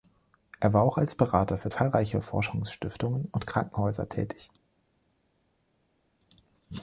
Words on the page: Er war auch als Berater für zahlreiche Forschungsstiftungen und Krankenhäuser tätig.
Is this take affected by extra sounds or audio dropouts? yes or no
no